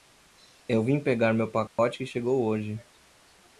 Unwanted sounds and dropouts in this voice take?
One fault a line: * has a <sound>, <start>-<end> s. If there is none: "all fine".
* has a dropout, 1.7-1.8 s